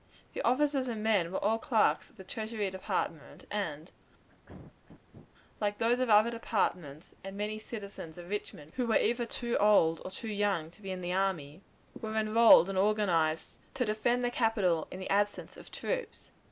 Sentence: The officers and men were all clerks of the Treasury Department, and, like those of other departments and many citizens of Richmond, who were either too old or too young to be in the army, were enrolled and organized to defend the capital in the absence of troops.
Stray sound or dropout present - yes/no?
yes